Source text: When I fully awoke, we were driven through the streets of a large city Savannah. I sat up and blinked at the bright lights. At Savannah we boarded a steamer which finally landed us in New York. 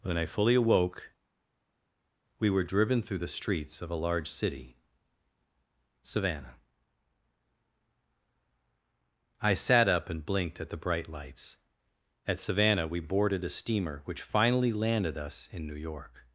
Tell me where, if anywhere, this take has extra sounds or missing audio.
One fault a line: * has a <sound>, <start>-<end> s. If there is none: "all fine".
all fine